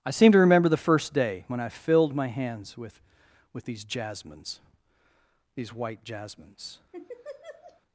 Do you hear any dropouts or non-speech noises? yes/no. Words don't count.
yes